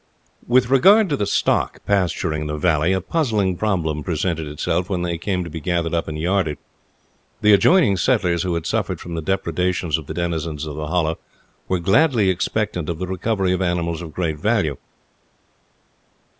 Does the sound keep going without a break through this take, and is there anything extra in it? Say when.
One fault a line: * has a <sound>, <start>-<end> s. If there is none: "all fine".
all fine